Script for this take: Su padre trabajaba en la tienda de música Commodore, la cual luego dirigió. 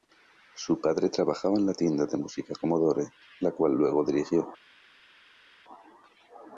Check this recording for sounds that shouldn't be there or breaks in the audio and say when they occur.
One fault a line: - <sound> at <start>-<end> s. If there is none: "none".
none